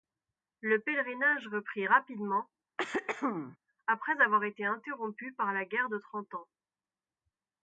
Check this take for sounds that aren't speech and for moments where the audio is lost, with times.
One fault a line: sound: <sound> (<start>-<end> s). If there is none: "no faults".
sound: throat clearing (2.8-3.6 s)